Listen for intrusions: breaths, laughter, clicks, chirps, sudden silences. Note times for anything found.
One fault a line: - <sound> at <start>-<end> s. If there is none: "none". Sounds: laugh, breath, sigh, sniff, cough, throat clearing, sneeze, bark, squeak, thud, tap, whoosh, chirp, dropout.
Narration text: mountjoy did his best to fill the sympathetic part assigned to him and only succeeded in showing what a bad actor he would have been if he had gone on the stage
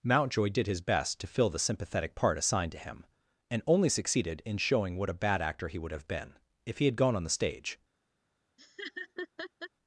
- laugh at 8.6-9.7 s